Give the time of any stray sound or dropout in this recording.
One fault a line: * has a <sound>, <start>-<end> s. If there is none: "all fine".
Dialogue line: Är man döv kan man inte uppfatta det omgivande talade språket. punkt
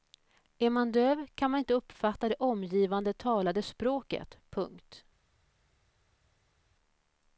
all fine